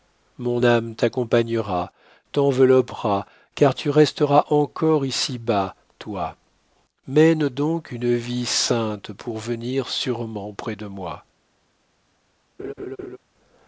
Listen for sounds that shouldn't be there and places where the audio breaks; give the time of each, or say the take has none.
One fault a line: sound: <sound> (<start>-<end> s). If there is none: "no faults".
sound: laugh (12.6-13.2 s)